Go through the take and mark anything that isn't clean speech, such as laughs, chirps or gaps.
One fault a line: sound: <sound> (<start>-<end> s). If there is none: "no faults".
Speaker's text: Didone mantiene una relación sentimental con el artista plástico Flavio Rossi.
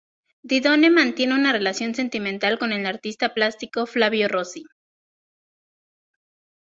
no faults